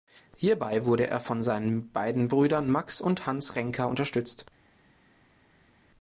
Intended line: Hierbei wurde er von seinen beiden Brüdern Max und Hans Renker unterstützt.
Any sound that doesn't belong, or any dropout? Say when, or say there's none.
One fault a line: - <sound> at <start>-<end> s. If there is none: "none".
none